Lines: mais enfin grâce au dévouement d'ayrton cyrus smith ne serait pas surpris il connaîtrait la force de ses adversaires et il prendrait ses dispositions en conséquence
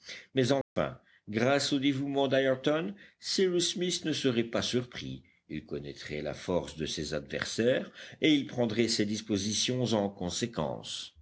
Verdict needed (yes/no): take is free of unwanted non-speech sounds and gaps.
no